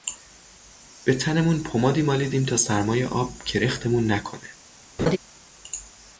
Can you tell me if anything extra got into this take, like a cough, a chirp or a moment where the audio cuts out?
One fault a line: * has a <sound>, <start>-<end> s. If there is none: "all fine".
* has a laugh, 5.0-5.2 s